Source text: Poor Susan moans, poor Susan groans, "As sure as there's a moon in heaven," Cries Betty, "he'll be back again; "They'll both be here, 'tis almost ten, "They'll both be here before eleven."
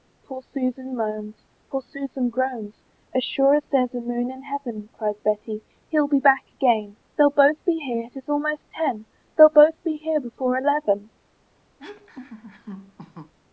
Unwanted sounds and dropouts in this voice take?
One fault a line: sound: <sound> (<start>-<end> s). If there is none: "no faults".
sound: laugh (11.8-13.3 s)